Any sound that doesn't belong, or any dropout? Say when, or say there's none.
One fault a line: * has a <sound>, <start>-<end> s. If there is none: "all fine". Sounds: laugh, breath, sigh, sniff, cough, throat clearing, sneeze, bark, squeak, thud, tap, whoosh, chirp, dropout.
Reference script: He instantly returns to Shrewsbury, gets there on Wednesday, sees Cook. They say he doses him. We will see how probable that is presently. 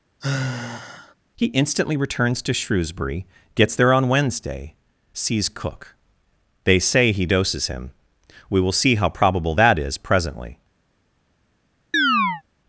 * has a sigh, 0.2-1.2 s
* has a chirp, 11.9-12.4 s